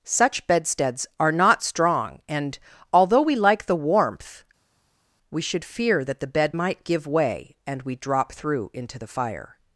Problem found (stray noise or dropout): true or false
false